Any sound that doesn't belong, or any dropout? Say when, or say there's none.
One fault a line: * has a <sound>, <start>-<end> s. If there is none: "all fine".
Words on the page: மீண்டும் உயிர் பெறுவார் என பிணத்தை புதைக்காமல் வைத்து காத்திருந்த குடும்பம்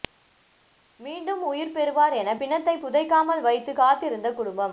all fine